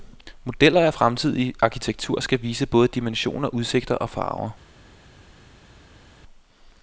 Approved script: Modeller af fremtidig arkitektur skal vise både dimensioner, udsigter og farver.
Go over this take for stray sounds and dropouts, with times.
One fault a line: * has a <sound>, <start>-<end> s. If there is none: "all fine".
all fine